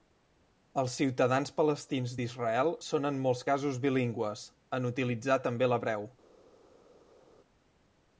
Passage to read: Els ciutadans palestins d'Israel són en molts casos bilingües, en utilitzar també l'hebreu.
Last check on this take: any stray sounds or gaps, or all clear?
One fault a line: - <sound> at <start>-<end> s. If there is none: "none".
none